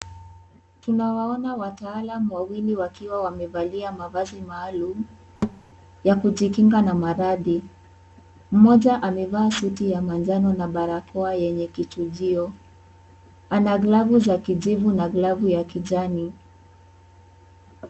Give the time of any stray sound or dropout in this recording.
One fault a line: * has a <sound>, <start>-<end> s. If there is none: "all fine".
* has a thud, 5.4-5.6 s